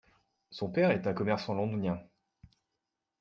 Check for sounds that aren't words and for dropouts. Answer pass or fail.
pass